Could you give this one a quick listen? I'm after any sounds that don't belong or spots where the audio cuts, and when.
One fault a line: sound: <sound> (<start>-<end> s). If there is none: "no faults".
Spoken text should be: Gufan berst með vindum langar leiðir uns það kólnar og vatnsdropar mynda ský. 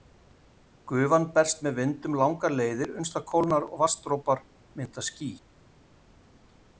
no faults